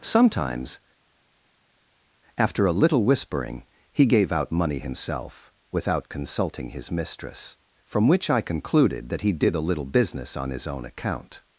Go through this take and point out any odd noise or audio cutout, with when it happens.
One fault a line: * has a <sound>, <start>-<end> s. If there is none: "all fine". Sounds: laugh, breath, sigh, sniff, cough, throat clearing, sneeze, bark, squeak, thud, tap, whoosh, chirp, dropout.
all fine